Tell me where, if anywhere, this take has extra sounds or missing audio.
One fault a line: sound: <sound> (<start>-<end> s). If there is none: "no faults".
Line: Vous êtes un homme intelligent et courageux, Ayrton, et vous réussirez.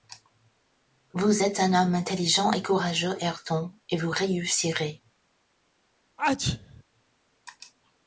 sound: sneeze (6.2-6.8 s)